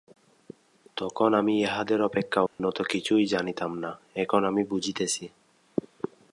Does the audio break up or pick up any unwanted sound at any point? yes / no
yes